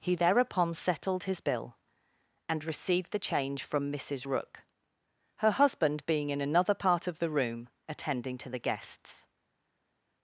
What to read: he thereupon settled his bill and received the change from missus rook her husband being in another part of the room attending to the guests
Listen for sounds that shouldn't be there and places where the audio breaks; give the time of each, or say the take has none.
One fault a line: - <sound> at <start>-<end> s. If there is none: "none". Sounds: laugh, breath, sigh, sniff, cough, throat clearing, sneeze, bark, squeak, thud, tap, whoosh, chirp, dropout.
none